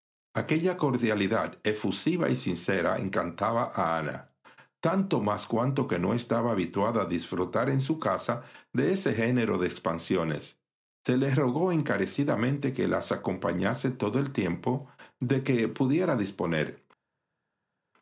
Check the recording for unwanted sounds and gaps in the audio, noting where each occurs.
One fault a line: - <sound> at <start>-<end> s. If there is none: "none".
none